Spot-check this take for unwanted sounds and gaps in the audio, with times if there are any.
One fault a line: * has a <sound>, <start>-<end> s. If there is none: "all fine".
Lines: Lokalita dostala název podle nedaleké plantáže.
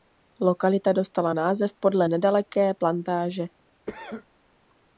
* has a cough, 3.9-4.3 s